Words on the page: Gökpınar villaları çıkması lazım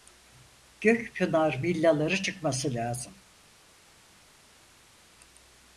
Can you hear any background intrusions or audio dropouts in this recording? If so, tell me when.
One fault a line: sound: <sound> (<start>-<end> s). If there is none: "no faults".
no faults